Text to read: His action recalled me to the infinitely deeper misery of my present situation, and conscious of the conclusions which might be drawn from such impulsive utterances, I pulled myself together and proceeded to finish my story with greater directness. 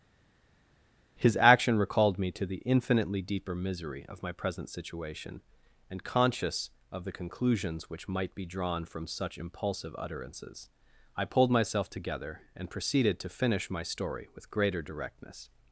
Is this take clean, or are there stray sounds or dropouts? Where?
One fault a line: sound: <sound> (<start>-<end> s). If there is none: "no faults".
no faults